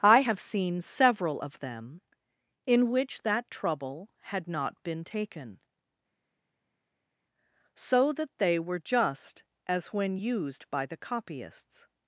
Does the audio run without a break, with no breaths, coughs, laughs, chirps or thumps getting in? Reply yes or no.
yes